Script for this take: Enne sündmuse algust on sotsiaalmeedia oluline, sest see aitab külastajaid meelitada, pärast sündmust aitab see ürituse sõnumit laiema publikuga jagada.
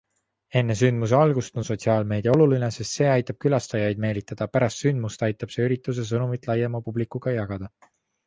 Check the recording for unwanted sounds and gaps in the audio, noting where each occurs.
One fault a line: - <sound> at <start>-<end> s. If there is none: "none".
none